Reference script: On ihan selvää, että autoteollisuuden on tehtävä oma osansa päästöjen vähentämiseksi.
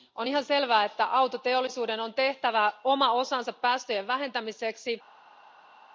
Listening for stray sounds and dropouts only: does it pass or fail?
pass